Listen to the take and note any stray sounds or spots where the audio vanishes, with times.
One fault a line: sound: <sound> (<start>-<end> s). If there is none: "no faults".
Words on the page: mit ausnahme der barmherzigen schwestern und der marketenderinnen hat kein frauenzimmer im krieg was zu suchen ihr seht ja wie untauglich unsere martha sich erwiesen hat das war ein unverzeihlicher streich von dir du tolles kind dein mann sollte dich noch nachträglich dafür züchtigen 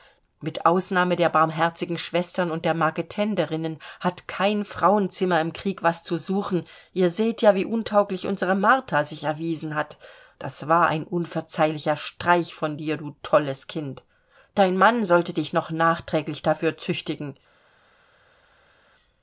no faults